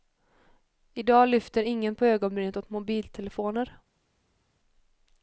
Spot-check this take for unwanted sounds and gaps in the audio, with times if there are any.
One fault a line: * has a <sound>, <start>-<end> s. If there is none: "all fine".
all fine